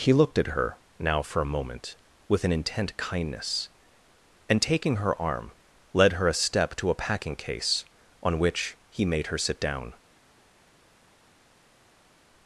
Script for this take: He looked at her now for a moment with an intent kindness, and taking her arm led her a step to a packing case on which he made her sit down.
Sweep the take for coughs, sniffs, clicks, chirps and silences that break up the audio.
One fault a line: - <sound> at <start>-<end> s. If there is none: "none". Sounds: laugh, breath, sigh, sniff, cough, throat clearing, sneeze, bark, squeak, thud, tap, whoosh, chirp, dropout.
none